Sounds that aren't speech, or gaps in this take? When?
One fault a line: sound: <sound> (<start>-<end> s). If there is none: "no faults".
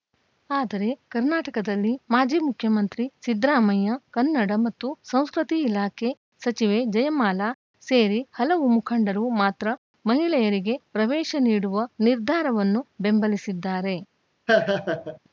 sound: laugh (14.5-15.2 s)